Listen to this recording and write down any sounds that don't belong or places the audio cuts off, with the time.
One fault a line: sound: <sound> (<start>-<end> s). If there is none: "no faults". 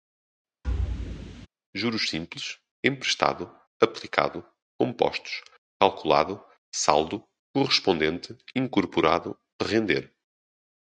sound: thud (0.6-1.5 s)